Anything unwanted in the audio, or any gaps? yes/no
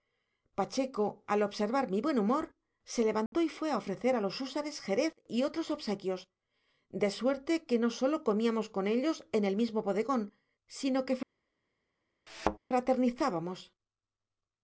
yes